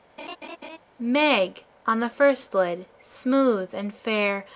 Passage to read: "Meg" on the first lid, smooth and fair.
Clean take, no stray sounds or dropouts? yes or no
no